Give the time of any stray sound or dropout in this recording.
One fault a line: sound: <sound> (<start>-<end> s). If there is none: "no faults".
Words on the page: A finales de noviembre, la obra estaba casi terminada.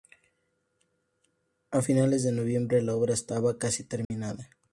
sound: dropout (4.0-4.1 s)